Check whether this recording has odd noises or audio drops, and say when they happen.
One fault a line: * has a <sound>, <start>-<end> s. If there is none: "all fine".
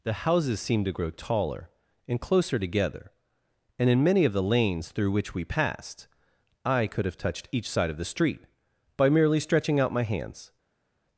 all fine